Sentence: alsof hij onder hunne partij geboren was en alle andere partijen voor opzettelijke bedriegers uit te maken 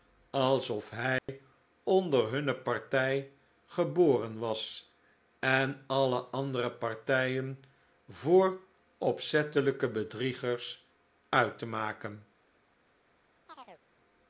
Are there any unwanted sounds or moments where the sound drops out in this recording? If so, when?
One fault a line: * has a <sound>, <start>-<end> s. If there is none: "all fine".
* has a dropout, 1.2-1.3 s
* has a chirp, 13.5-13.8 s